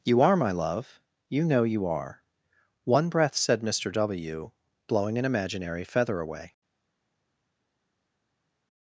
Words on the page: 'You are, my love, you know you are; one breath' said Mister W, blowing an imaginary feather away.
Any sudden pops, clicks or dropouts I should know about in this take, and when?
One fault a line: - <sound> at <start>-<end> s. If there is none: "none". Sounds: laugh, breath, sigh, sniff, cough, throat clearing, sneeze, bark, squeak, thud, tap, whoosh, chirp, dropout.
none